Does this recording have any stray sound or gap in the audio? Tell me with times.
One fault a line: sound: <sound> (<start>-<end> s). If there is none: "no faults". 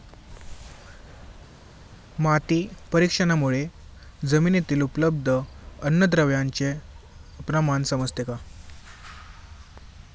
no faults